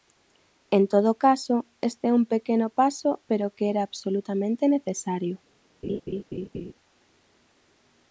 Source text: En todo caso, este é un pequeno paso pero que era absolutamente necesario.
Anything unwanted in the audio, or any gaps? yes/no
yes